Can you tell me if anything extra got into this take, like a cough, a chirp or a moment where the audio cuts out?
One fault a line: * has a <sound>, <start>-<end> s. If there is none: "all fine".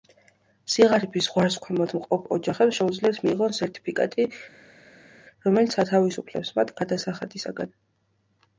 all fine